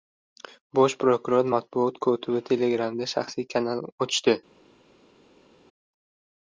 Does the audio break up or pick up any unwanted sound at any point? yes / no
no